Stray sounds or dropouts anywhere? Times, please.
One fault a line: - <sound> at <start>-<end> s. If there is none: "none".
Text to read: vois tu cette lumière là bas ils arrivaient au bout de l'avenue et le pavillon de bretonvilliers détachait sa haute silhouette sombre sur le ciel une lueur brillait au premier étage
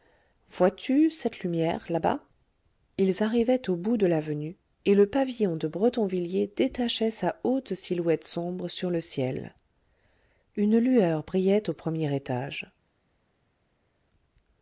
none